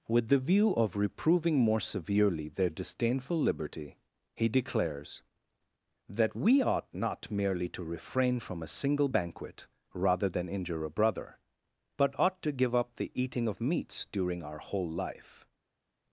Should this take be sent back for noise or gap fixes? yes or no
no